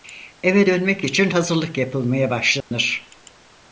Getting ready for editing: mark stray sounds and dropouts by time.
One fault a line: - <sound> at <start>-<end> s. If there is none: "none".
- dropout at 2.6-2.7 s